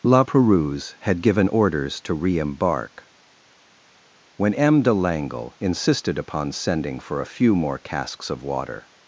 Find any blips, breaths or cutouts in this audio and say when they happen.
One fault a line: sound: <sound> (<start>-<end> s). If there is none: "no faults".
no faults